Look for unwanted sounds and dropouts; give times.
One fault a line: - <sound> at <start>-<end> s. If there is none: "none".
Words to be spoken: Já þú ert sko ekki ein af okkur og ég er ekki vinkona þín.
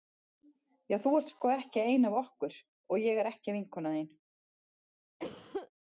- cough at 5.2-5.7 s